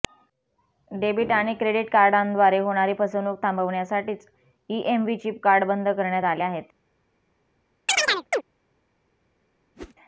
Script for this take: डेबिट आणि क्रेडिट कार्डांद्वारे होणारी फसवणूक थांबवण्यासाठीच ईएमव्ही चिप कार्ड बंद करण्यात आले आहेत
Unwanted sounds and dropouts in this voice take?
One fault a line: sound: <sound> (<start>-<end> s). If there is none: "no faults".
sound: chirp (7.9-8.4 s)
sound: whoosh (9.7-9.9 s)